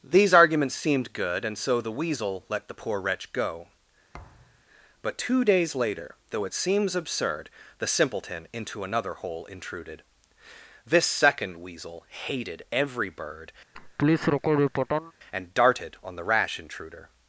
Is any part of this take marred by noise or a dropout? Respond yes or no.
yes